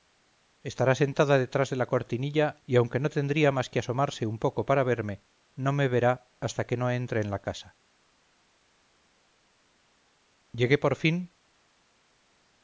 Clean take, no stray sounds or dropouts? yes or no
yes